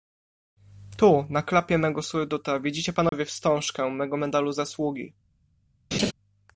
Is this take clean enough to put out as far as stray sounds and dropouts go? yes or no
no